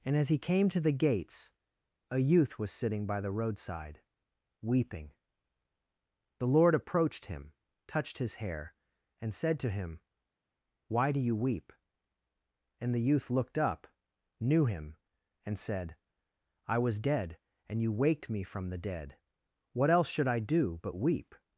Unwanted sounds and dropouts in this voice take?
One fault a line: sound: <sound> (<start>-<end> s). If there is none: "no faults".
no faults